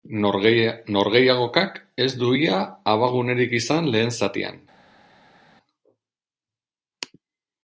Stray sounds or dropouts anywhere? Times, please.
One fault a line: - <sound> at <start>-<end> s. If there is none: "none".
none